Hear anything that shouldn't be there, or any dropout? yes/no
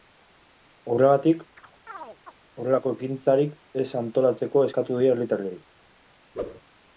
yes